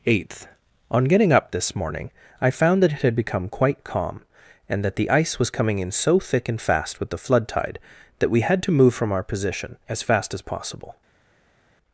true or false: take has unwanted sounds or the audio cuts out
false